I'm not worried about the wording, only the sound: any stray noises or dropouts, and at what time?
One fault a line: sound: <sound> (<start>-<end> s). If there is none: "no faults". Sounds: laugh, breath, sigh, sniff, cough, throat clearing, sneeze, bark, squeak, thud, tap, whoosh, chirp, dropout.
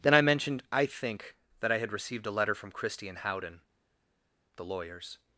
no faults